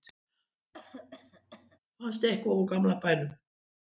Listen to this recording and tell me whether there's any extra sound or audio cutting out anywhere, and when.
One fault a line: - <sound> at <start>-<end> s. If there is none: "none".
- cough at 0.7-1.8 s